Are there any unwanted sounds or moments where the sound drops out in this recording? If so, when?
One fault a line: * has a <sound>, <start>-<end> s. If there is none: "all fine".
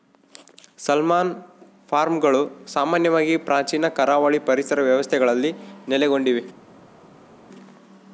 all fine